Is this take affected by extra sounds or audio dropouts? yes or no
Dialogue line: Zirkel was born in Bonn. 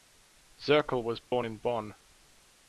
yes